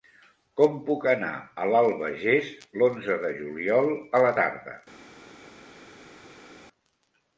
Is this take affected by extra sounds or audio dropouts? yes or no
no